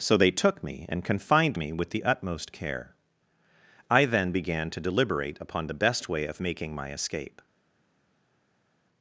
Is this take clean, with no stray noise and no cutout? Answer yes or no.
yes